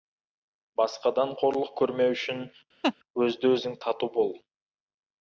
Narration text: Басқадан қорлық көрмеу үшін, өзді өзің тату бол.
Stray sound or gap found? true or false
true